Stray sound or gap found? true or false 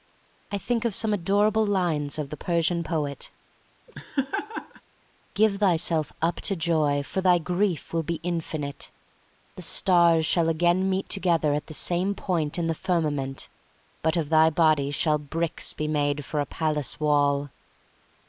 true